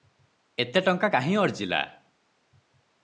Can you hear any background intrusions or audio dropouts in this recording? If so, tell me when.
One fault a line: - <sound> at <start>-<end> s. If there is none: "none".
none